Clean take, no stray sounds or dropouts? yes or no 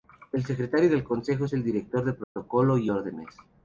no